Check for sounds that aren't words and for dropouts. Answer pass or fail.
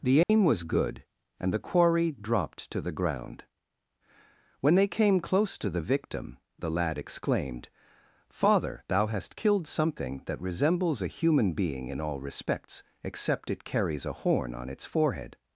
fail